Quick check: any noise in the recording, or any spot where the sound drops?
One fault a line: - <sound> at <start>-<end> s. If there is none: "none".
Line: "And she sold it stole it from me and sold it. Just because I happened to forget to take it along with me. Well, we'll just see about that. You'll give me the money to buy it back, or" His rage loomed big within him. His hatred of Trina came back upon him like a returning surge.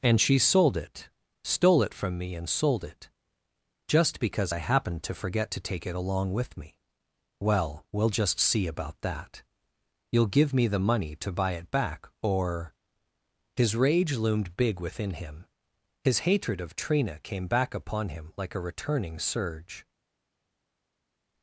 none